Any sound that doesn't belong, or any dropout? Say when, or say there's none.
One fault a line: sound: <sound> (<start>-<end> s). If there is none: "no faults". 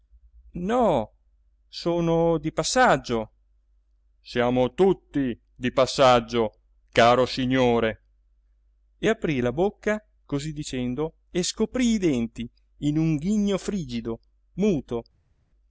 no faults